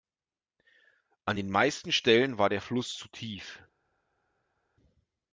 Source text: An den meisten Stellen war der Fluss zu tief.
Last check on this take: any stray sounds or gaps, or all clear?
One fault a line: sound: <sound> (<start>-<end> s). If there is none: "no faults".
no faults